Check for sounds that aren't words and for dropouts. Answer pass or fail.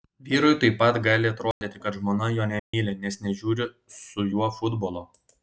fail